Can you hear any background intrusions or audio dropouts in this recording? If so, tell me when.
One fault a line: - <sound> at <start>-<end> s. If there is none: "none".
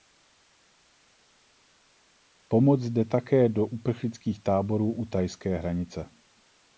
none